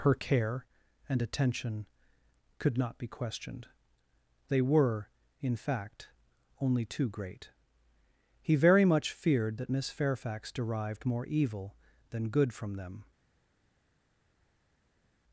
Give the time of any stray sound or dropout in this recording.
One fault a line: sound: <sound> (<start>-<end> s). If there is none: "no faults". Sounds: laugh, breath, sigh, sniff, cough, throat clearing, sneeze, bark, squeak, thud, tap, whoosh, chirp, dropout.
no faults